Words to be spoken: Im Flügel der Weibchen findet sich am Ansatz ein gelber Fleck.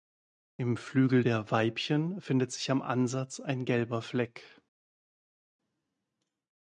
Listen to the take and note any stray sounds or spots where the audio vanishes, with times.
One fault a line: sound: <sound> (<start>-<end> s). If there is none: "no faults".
no faults